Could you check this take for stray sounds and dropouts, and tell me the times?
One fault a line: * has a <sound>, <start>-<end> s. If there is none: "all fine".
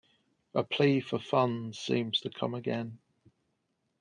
all fine